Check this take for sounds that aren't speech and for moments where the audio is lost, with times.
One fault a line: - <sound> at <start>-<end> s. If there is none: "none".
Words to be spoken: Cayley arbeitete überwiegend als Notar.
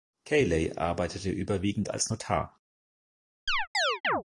- chirp at 3.5-4.2 s